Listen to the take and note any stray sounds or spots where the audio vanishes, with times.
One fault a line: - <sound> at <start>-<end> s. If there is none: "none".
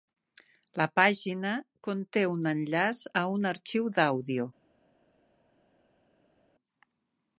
none